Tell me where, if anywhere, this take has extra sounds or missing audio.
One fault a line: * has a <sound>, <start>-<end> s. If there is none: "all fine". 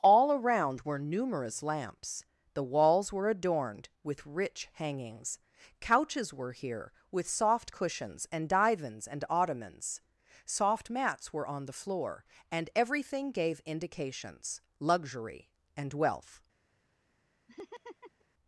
* has a laugh, 17.5-18.3 s